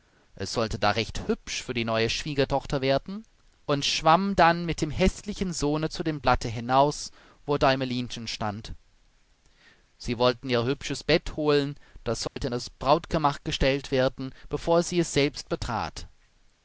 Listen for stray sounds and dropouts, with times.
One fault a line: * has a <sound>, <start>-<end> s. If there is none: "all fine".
* has a dropout, 12.3-12.4 s